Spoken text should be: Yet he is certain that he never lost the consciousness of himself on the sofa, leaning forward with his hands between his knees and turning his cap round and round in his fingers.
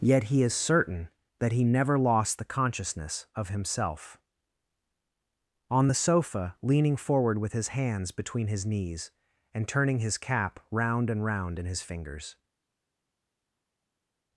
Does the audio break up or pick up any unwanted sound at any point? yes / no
no